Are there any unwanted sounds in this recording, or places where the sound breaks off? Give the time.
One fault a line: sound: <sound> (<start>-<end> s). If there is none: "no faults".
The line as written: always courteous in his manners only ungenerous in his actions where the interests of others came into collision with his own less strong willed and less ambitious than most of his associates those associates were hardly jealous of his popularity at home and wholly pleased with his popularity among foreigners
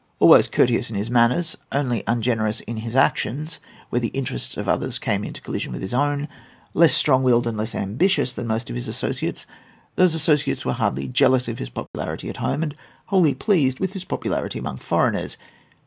sound: dropout (11.9-11.9 s)